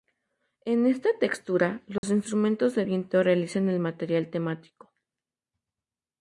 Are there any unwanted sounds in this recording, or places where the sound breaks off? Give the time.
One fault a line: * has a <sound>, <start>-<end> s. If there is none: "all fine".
* has a dropout, 2.0-2.0 s